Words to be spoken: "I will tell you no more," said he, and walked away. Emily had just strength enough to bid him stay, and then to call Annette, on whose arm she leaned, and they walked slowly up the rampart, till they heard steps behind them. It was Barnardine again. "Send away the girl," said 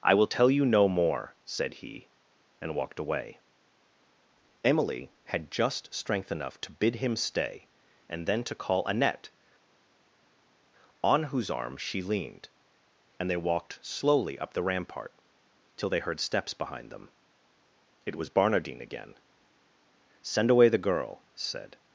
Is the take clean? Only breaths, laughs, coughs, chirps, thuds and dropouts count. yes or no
yes